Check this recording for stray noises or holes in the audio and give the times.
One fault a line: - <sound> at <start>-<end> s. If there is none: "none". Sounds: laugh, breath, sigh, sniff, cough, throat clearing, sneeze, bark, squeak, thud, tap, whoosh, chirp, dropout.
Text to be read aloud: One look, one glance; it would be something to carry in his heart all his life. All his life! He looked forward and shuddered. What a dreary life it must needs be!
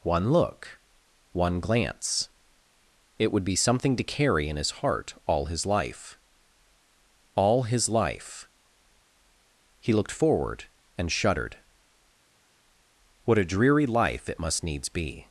none